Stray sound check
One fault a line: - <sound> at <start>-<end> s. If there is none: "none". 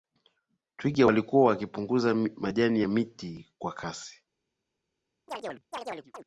- chirp at 5.3-6.2 s